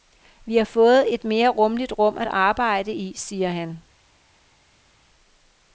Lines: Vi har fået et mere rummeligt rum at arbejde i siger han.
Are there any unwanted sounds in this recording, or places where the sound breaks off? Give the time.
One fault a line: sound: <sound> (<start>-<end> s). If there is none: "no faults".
no faults